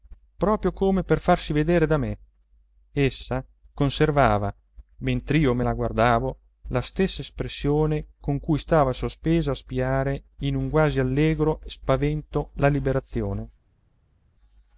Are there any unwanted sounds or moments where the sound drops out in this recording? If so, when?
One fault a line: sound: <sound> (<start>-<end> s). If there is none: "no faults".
no faults